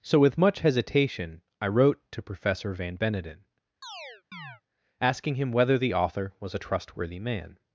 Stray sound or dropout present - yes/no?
yes